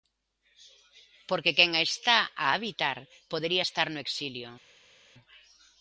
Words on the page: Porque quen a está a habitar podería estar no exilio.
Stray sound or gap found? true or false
false